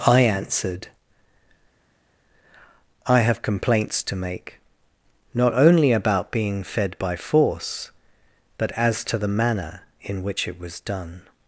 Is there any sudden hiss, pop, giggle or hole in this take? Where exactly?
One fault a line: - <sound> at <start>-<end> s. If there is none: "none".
none